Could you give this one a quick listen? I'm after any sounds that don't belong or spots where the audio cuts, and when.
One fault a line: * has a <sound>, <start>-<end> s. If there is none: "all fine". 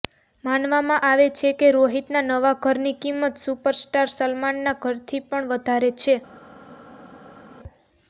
all fine